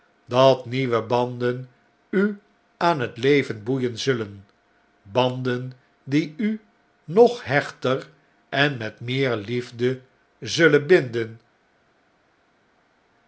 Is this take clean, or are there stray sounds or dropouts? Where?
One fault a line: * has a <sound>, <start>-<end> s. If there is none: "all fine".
all fine